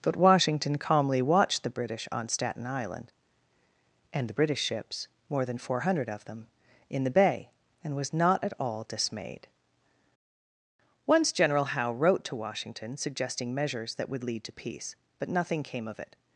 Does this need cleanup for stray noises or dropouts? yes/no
no